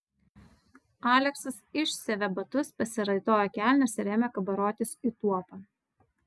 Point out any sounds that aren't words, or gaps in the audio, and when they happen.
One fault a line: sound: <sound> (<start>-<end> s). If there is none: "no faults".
no faults